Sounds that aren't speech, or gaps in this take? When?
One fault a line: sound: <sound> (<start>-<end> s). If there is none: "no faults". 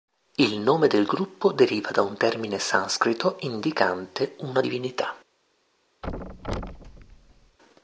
sound: thud (6.0-7.6 s)